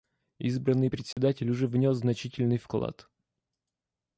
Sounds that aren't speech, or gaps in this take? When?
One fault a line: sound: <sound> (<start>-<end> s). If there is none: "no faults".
sound: dropout (1.1-1.2 s)